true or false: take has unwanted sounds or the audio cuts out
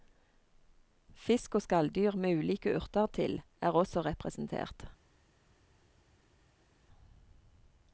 false